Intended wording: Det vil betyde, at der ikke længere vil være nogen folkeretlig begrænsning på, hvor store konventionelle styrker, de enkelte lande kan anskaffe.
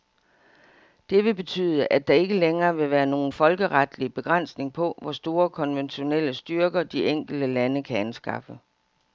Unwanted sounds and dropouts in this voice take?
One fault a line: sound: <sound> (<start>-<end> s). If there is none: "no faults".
no faults